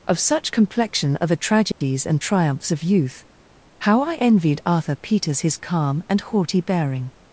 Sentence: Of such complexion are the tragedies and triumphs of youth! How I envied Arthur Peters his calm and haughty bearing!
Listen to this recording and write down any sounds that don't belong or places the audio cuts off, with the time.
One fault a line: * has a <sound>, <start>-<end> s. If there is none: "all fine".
* has a dropout, 1.7-1.8 s